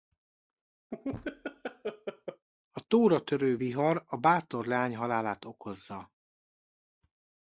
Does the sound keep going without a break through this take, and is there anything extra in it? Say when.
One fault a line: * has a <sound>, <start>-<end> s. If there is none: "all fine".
* has a laugh, 0.9-2.5 s